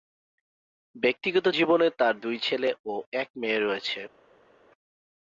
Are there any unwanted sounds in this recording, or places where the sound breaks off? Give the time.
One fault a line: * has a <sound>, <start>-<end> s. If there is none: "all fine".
all fine